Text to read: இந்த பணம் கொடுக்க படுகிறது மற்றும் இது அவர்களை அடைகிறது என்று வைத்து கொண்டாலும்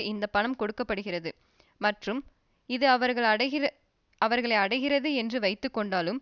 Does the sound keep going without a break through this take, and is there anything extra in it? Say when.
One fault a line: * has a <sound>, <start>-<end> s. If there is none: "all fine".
all fine